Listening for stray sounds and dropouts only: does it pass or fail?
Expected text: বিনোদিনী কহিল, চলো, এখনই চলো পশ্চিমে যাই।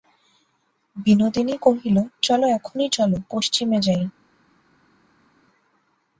pass